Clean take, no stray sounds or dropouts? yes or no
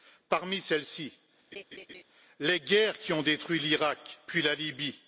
no